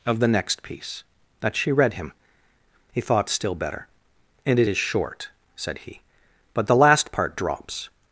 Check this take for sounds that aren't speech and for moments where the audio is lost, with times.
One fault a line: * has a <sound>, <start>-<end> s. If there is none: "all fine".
all fine